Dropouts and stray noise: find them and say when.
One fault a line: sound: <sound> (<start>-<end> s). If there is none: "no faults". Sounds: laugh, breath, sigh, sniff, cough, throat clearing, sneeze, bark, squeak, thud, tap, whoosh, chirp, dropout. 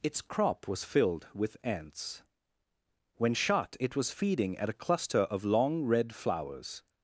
no faults